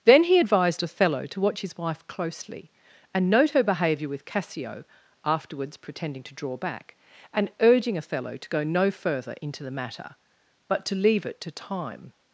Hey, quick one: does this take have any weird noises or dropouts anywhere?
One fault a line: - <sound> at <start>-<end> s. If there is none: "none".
none